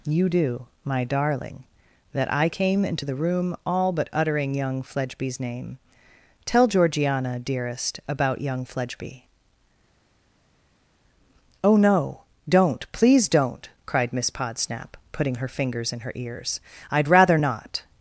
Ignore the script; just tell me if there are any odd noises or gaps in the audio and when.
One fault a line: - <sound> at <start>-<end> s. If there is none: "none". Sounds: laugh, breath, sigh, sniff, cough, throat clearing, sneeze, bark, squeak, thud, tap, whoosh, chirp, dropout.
none